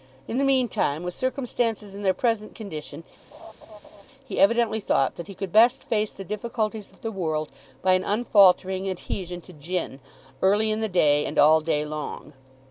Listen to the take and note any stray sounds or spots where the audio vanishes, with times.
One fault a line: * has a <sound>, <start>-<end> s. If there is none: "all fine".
* has a laugh, 3.3-4.0 s